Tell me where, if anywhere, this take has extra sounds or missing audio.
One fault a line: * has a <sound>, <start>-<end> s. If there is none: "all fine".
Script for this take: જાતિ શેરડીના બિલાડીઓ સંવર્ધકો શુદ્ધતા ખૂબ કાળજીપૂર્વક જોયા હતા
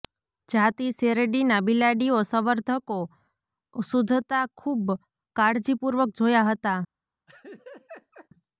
* has a laugh, 7.3-8.3 s